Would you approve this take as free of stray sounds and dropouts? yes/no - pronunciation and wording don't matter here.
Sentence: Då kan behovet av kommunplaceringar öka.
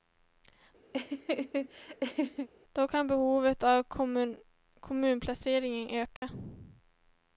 no